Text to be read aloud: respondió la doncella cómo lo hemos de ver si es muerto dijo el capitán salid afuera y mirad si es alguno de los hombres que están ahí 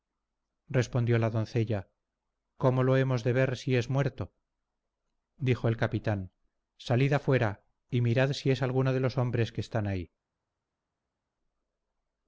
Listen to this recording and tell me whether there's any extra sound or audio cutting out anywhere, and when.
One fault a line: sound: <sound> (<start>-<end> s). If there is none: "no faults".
no faults